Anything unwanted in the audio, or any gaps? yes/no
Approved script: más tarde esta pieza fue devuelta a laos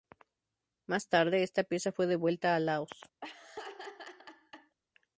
yes